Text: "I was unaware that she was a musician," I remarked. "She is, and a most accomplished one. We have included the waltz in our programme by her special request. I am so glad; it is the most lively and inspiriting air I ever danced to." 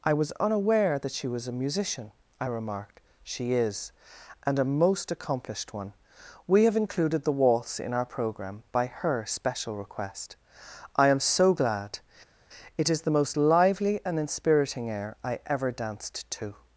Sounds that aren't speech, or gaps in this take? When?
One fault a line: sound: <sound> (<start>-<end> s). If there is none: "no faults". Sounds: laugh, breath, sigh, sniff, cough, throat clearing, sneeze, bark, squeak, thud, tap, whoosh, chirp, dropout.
no faults